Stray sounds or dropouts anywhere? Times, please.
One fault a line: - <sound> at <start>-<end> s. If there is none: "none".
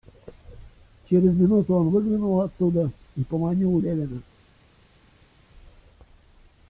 none